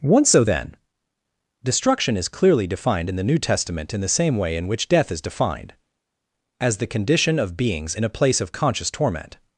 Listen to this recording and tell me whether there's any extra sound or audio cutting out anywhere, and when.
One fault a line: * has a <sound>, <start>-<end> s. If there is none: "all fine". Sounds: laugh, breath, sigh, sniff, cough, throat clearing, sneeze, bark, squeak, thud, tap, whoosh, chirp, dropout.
all fine